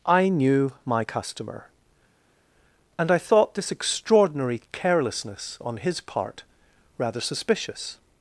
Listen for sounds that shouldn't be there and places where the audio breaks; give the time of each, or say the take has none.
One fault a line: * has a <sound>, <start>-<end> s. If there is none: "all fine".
all fine